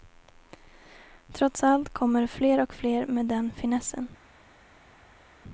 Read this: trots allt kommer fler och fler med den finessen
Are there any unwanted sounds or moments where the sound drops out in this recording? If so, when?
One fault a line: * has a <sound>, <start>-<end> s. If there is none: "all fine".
all fine